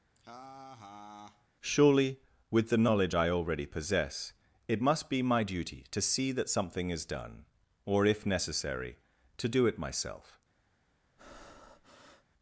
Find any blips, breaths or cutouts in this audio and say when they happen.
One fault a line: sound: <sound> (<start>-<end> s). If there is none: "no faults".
sound: laugh (0.1-1.5 s)
sound: breath (11.2-12.3 s)